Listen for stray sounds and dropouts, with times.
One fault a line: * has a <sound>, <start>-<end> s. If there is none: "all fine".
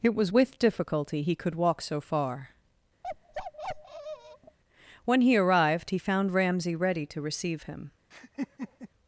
* has a bark, 3.0-4.6 s
* has a laugh, 8.1-8.9 s